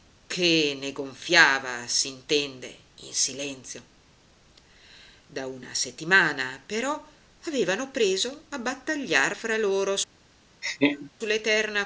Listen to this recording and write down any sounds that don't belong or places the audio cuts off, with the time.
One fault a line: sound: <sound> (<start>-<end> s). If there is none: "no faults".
sound: laugh (10.6-11.1 s)